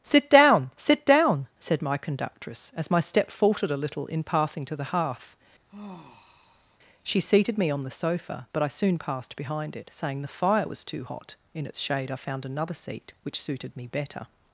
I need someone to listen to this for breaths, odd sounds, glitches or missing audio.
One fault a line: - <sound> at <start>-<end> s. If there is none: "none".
- sigh at 5.7-6.8 s